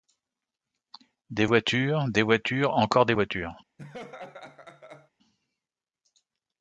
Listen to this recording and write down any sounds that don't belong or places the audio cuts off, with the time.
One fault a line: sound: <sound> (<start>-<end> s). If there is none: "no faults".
sound: laugh (3.8-5.1 s)